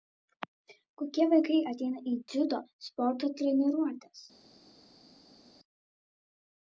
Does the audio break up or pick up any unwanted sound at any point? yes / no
no